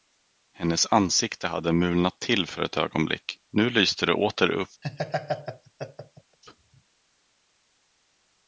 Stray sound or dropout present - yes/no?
yes